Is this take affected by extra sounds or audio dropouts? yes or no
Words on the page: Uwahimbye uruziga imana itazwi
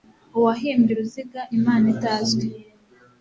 no